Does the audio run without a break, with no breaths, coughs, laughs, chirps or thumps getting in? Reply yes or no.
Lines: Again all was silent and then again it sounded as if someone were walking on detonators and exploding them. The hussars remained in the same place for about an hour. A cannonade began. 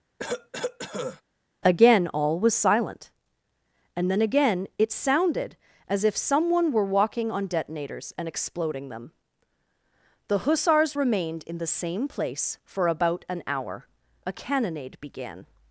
no